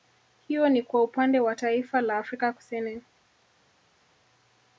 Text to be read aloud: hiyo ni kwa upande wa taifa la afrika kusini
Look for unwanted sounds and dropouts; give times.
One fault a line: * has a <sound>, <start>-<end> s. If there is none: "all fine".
all fine